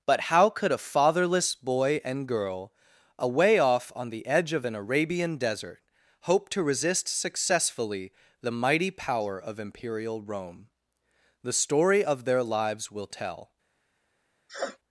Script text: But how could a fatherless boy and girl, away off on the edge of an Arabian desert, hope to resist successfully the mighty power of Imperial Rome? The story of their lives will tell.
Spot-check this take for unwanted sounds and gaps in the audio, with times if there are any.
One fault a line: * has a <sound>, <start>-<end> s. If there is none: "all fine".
* has a sniff, 14.5-14.8 s